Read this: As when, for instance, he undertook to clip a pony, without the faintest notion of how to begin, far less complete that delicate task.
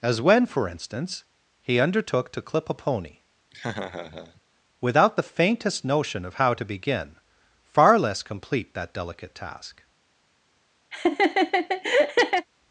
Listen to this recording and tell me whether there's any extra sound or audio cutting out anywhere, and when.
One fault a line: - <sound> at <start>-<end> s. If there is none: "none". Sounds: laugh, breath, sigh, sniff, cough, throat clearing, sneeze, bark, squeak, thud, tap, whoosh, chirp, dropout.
- laugh at 3.5-4.4 s
- laugh at 10.9-12.5 s